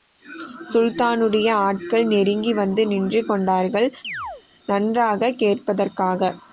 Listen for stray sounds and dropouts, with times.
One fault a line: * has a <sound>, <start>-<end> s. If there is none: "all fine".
* has a chirp, 4.0-4.4 s